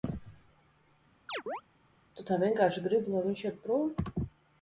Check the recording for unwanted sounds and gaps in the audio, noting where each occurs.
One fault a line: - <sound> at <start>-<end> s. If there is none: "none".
- chirp at 1.3-1.6 s